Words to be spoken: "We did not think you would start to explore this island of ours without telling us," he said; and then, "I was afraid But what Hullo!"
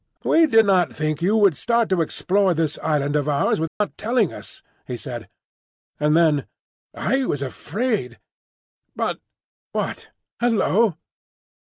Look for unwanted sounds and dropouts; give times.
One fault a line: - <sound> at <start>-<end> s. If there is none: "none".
- dropout at 3.7-3.8 s